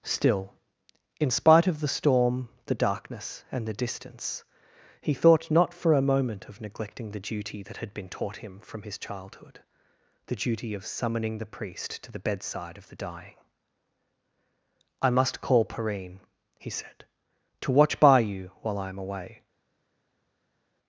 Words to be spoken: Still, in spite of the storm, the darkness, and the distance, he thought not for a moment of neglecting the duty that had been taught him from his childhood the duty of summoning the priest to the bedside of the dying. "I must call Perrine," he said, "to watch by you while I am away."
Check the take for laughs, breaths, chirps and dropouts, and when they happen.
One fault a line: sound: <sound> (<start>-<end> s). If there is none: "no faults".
no faults